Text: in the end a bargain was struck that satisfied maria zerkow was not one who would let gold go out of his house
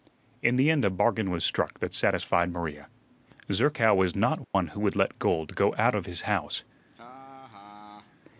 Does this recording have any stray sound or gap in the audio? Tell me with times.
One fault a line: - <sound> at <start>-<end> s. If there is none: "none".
- dropout at 4.4-4.5 s
- laugh at 6.9-8.2 s